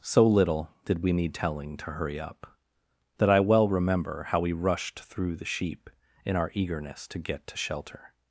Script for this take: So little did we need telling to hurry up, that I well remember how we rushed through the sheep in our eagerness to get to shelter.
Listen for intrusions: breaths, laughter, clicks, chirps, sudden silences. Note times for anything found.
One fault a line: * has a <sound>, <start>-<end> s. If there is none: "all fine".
all fine